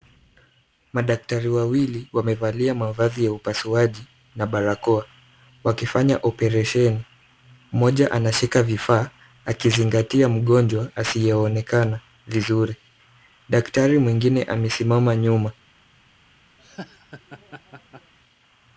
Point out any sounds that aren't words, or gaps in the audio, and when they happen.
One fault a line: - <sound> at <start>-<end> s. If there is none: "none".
- laugh at 16.6-18.1 s